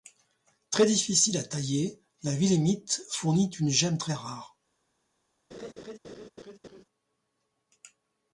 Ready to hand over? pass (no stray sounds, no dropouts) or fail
fail